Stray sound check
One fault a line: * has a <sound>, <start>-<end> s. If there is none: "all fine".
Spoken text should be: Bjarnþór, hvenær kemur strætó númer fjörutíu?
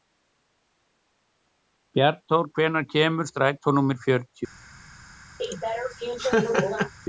* has a laugh, 5.4-6.9 s